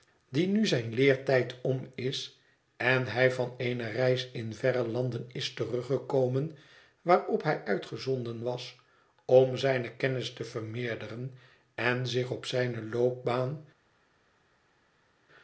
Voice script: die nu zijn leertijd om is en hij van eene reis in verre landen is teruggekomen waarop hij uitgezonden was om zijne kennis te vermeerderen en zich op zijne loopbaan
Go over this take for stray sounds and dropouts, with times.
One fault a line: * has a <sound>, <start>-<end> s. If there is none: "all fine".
all fine